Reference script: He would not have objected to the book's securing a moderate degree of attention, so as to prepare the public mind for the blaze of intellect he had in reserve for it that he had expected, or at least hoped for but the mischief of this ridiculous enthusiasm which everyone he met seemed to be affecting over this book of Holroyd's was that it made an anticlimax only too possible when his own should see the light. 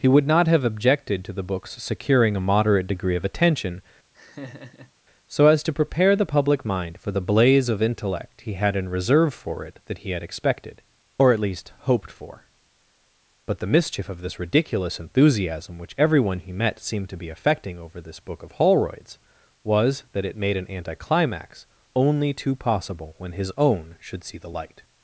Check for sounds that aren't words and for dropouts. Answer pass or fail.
fail